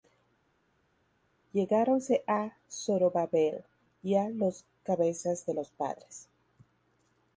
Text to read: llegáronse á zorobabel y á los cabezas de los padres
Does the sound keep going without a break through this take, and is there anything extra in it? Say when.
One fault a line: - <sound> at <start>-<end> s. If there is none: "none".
none